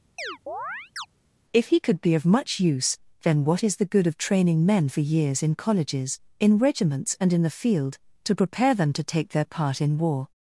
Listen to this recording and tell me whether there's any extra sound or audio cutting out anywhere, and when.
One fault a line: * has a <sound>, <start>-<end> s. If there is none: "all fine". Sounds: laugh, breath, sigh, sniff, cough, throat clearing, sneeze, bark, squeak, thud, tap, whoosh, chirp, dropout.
* has a chirp, 0.2-1.1 s